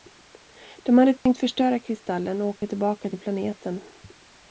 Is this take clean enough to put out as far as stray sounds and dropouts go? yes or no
no